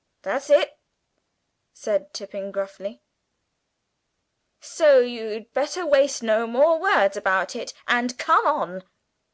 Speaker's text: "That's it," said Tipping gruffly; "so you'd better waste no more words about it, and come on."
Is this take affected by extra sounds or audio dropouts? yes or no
no